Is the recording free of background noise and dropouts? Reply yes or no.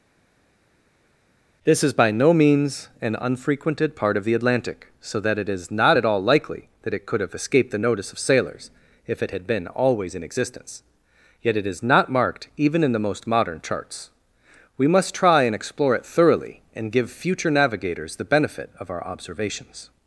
yes